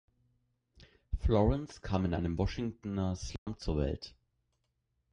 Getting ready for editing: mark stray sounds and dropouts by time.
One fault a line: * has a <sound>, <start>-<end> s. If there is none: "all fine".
* has a dropout, 3.4-3.5 s